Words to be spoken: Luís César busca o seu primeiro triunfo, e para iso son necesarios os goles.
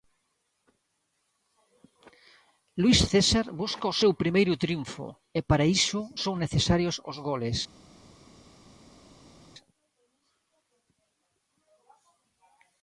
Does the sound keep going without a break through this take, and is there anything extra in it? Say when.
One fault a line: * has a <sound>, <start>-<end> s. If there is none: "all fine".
all fine